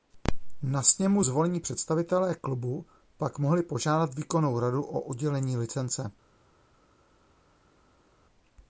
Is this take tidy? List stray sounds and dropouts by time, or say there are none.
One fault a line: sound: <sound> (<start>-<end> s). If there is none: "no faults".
no faults